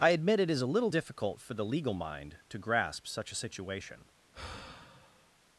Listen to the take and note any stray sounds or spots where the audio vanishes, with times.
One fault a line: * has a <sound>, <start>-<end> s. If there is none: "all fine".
* has a sigh, 4.3-5.3 s